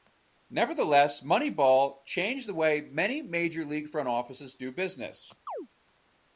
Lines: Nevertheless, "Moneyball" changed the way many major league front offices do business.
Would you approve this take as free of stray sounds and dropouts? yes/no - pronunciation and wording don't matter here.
no